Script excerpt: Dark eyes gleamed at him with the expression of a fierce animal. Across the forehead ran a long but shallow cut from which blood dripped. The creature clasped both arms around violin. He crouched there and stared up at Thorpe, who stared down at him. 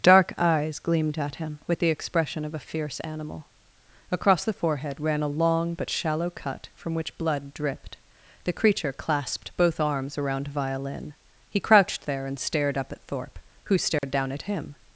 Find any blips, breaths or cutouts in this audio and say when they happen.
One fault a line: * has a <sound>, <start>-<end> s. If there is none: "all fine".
* has a dropout, 14.0-14.0 s